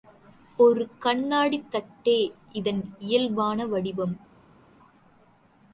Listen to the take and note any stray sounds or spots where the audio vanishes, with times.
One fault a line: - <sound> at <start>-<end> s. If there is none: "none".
none